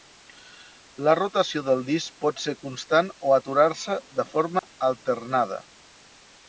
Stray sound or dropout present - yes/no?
yes